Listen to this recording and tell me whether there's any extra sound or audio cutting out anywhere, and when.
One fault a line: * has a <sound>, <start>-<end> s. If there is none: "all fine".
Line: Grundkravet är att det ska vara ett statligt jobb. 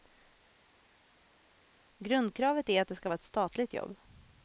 all fine